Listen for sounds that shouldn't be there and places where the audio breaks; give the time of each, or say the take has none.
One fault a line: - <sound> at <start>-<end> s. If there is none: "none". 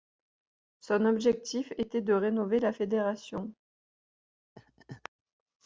- laugh at 4.6-5.1 s